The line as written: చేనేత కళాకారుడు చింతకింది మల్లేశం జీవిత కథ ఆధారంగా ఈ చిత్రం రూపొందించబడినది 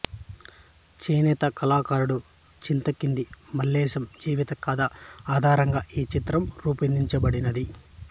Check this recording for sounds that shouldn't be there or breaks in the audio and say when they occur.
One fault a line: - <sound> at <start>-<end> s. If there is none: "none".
none